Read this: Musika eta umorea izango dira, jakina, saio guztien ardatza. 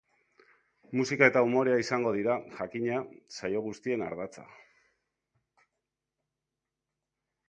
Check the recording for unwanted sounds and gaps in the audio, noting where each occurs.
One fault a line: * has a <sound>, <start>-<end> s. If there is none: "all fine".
all fine